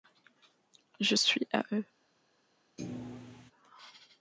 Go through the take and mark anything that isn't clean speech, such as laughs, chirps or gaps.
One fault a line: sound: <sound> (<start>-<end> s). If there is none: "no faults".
sound: thud (2.8-3.5 s)